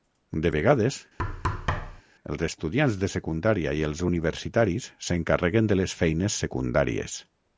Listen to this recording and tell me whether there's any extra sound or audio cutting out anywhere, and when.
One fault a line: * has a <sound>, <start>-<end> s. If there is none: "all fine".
* has a thud, 1.2-2.0 s